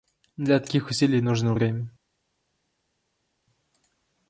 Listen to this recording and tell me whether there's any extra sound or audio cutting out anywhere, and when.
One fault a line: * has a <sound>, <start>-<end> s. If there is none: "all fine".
all fine